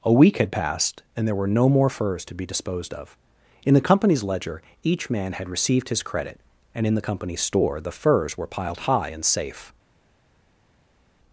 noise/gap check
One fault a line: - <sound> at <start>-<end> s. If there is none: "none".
none